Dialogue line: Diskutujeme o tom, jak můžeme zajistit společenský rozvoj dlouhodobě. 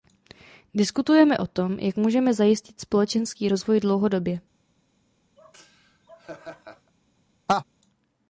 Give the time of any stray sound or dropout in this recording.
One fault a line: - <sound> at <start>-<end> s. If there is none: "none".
- laugh at 5.4-6.9 s
- laugh at 7.5-7.6 s